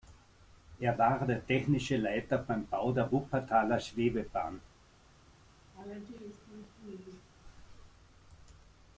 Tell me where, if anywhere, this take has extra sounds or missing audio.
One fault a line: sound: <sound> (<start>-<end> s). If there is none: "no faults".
sound: laugh (5.7-7.3 s)